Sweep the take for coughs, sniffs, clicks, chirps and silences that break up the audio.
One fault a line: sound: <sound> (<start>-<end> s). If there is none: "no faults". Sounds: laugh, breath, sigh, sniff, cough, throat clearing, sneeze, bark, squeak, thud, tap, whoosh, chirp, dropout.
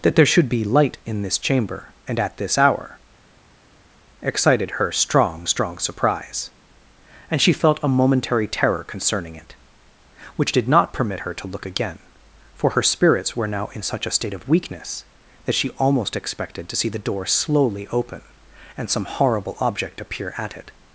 no faults